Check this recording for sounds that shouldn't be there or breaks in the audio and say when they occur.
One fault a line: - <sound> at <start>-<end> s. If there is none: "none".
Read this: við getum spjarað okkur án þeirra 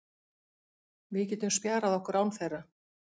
none